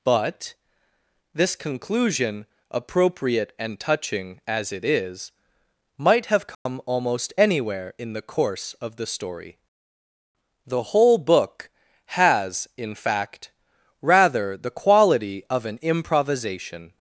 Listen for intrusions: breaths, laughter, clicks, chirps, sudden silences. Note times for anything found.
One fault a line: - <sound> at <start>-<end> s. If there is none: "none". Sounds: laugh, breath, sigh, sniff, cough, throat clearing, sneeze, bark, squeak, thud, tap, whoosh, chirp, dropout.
- dropout at 6.5-6.7 s